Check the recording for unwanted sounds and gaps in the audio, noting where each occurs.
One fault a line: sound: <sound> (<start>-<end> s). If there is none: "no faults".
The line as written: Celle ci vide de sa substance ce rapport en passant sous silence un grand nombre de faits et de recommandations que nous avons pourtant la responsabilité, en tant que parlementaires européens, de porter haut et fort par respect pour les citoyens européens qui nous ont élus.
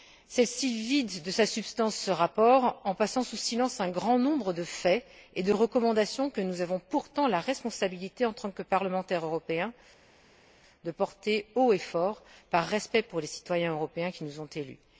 no faults